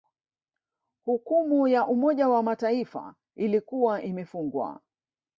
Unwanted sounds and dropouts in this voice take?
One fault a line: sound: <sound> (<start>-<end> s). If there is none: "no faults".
no faults